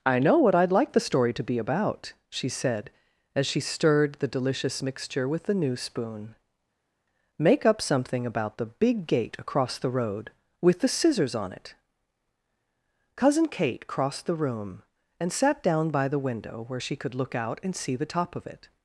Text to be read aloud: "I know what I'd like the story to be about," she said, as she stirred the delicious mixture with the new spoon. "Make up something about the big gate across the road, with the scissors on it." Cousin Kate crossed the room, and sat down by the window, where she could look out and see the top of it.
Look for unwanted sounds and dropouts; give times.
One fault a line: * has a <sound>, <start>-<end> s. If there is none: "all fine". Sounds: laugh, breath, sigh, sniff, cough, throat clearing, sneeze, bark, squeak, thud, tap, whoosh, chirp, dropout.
all fine